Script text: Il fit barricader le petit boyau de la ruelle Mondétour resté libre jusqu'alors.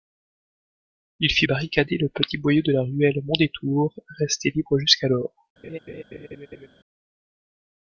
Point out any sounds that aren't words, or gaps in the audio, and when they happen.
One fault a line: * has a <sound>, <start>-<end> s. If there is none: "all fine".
* has a laugh, 5.6-6.7 s